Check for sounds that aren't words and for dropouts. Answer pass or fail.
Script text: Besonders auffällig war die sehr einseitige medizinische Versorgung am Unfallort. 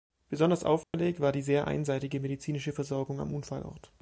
fail